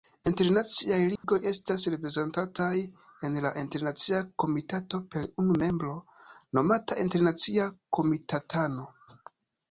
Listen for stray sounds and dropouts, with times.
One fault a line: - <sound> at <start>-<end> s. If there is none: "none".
- dropout at 1.2-1.2 s